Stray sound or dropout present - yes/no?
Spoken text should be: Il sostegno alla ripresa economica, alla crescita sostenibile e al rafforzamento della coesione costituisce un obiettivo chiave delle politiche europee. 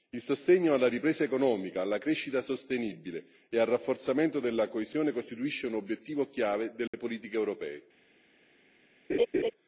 yes